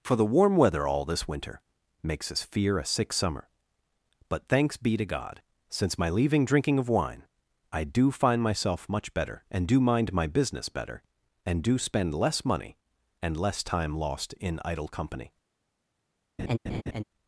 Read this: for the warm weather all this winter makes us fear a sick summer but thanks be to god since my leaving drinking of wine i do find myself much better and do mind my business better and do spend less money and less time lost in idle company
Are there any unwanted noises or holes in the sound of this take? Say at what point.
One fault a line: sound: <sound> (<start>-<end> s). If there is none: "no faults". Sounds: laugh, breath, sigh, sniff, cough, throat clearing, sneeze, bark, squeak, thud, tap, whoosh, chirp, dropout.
sound: laugh (16.4-17.0 s)